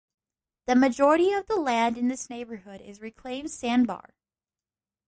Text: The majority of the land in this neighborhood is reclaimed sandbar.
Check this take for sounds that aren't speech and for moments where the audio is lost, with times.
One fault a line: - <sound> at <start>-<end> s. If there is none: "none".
none